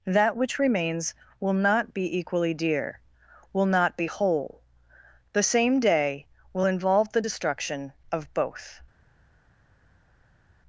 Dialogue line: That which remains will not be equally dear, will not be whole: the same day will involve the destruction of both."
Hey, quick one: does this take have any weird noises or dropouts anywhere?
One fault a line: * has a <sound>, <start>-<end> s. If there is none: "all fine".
all fine